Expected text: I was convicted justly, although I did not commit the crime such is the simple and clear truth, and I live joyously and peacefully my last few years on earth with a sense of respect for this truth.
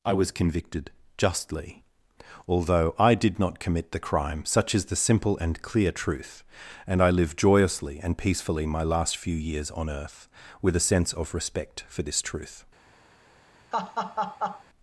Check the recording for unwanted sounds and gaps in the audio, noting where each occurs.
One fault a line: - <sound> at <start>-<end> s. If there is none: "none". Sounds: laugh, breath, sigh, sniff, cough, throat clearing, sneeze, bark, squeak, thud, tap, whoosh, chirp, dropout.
- laugh at 13.7-14.6 s